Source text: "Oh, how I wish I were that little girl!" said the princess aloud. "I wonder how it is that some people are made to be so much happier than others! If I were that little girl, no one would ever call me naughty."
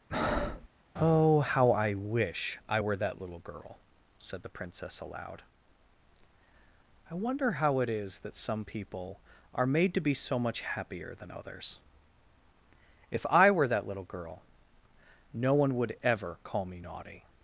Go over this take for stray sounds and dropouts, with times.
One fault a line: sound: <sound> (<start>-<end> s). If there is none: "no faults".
sound: breath (0.1-0.7 s)